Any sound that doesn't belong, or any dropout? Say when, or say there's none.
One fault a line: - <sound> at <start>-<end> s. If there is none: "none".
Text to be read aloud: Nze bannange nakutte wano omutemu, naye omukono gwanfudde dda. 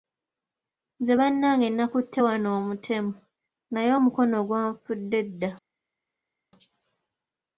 none